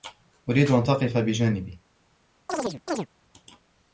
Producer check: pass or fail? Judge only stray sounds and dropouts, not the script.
fail